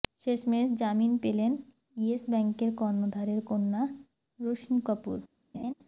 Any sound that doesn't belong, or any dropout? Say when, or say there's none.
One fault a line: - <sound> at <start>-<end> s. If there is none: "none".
- laugh at 5.5-5.7 s